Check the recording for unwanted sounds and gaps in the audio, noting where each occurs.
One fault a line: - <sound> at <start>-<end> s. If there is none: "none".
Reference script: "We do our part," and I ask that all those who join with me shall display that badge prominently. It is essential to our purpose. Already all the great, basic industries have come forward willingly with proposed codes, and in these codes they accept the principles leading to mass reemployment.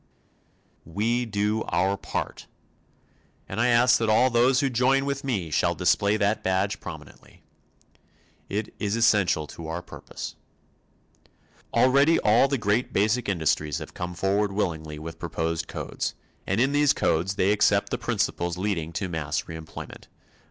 none